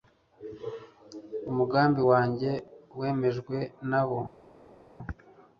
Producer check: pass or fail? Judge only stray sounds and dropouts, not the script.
pass